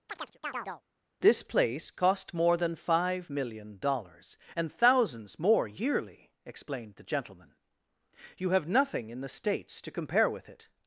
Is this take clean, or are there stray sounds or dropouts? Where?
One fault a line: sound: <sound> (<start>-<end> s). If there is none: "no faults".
sound: chirp (0.1-0.8 s)